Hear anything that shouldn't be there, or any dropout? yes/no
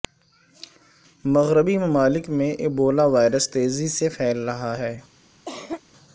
yes